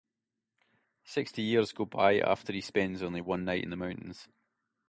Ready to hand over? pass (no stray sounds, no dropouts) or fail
pass